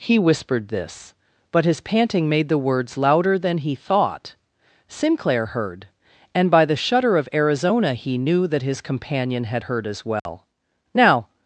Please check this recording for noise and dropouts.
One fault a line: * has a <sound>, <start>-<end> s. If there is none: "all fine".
* has a dropout, 10.2-10.3 s